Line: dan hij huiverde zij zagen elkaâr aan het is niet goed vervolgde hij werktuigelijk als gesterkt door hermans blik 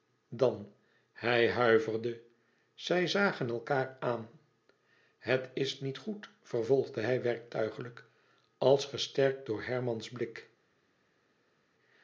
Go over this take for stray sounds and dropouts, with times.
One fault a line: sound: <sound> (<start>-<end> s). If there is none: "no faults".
no faults